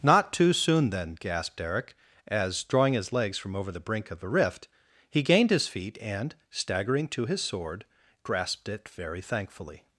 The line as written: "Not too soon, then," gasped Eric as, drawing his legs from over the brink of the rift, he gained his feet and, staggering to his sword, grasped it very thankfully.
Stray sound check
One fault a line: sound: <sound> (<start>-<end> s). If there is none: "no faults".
no faults